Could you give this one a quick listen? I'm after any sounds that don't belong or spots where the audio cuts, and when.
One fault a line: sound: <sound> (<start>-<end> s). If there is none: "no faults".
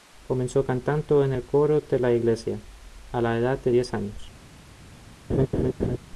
sound: laugh (5.3-6.0 s)